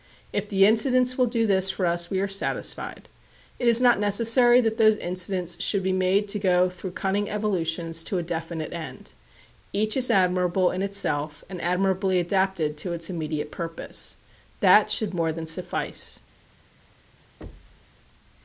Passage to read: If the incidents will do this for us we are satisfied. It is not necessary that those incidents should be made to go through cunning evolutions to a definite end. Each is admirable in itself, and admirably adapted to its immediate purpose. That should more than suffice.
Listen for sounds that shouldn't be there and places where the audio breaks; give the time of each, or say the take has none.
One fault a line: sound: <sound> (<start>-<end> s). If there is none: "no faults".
sound: thud (17.4-17.9 s)